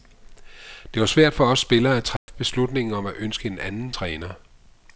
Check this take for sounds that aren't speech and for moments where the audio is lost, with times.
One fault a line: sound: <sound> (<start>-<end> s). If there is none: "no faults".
sound: dropout (2.2-2.3 s)